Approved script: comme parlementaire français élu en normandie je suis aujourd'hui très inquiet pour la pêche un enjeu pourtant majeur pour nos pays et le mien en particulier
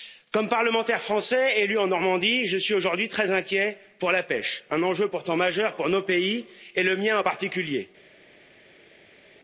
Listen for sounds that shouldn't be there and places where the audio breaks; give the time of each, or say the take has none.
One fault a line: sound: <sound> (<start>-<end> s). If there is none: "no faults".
no faults